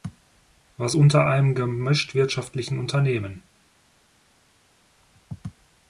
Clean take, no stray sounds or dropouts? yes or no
yes